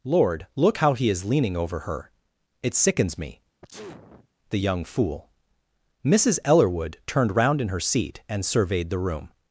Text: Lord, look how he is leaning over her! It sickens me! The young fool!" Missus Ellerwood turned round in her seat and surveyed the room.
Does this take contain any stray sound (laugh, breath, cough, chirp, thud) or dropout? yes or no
yes